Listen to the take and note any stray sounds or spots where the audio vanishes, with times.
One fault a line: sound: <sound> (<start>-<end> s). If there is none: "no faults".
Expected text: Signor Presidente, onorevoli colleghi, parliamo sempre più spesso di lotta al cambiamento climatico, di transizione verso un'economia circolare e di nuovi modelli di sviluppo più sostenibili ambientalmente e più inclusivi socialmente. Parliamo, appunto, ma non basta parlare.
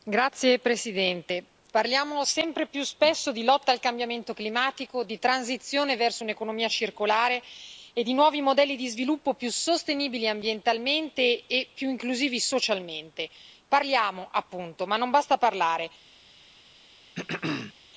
sound: throat clearing (17.1-17.7 s)